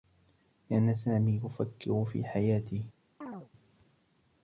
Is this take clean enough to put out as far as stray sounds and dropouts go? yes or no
no